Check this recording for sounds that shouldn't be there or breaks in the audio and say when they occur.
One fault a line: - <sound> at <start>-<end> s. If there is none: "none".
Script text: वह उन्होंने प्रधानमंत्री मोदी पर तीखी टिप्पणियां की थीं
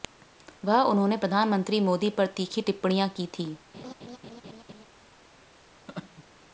- laugh at 3.7-4.9 s
- laugh at 5.9-6.2 s